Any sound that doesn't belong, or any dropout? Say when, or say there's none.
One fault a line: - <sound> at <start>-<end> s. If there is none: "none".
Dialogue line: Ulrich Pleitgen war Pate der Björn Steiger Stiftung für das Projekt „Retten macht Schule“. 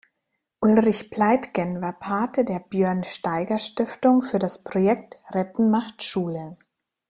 none